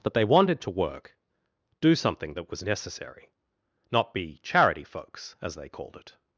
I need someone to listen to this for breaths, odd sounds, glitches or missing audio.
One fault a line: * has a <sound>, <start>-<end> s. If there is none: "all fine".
all fine